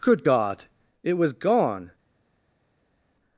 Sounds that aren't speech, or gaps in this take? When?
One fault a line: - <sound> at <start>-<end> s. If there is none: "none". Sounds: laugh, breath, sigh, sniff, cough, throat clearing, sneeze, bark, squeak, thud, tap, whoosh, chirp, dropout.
none